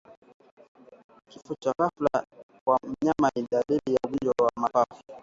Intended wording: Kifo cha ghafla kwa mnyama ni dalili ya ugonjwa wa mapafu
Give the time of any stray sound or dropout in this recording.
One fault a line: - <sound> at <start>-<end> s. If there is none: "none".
none